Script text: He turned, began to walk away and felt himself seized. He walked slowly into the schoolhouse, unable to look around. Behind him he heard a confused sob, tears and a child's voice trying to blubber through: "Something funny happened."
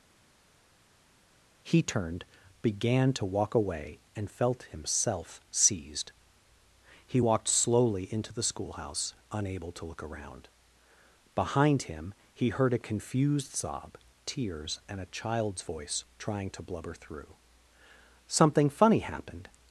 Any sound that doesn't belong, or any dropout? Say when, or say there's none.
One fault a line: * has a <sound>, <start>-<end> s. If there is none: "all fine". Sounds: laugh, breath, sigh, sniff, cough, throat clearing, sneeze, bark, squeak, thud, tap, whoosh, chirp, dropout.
all fine